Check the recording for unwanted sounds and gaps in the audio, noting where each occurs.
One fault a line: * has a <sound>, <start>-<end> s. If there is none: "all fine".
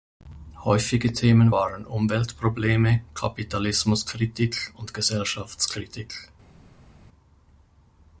all fine